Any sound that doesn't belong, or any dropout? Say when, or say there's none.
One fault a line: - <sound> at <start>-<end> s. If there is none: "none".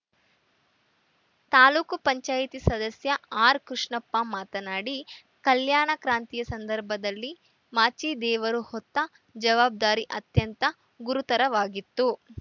none